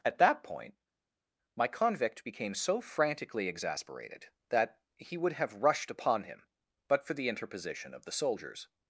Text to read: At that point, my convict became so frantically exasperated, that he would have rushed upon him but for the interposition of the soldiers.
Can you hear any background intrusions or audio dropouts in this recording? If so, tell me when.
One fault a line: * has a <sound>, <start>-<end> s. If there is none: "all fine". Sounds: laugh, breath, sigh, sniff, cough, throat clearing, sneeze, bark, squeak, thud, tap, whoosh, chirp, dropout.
all fine